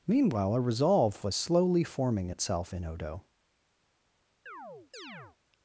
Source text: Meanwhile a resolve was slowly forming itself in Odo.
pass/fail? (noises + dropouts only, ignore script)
fail